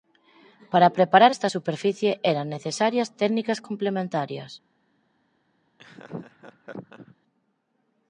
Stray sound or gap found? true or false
true